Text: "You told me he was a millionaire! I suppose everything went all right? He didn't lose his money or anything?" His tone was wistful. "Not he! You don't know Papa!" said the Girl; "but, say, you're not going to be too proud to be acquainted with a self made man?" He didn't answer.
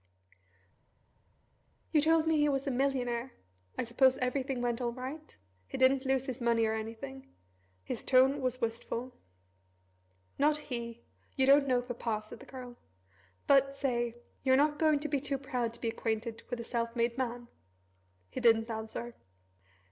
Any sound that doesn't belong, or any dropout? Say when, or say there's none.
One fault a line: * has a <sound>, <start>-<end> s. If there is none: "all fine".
all fine